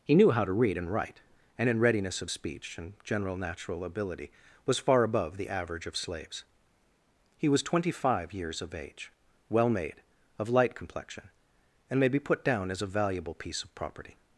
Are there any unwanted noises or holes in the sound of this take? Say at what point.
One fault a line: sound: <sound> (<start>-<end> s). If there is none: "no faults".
no faults